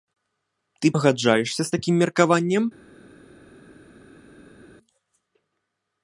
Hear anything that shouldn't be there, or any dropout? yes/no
no